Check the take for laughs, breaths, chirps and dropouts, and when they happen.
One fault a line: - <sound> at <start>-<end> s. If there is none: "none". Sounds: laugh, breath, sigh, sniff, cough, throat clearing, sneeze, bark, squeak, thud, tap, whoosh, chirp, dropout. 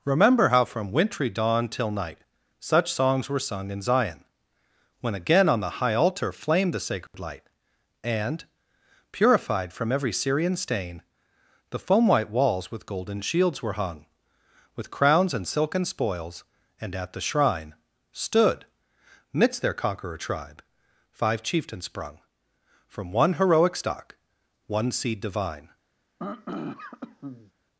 - dropout at 7.1-7.1 s
- throat clearing at 26.2-27.5 s